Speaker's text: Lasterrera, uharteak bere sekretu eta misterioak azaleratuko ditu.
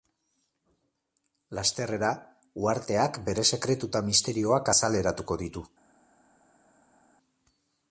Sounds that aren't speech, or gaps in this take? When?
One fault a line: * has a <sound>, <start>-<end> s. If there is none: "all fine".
all fine